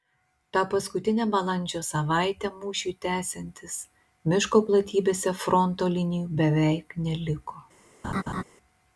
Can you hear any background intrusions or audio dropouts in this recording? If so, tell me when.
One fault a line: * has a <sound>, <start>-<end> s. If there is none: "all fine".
* has a laugh, 8.0-8.4 s